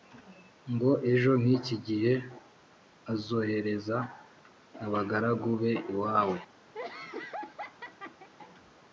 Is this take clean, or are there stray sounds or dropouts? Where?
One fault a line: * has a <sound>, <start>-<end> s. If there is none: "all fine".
* has a laugh, 6.7-8.3 s